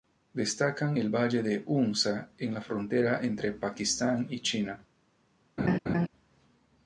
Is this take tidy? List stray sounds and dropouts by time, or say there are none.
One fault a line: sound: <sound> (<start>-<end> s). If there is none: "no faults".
sound: laugh (5.6-6.1 s)